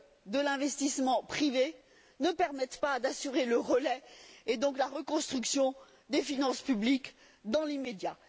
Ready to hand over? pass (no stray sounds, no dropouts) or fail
pass